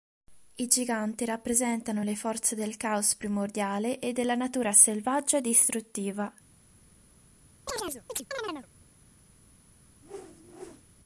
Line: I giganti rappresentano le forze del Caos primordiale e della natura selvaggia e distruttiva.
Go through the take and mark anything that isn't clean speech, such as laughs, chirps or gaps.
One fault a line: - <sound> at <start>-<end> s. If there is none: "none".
- chirp at 7.7-8.7 s
- whoosh at 10.0-10.8 s